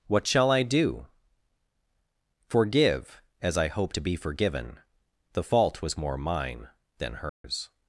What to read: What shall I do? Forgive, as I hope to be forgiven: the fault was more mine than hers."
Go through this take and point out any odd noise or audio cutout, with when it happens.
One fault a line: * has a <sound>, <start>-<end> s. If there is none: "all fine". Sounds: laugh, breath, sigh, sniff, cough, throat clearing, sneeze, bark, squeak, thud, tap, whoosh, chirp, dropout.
* has a dropout, 7.3-7.4 s